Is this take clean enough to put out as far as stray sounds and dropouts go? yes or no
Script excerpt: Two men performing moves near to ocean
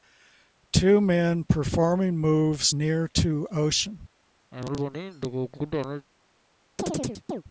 no